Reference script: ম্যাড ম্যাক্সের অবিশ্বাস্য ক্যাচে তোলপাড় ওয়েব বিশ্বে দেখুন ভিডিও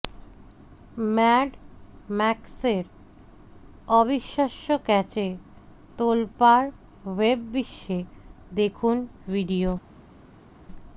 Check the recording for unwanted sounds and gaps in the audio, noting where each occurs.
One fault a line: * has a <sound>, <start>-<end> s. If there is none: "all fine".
all fine